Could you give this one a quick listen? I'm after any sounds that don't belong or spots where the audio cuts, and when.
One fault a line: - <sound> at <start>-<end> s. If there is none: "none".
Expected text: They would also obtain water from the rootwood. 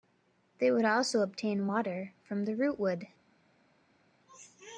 none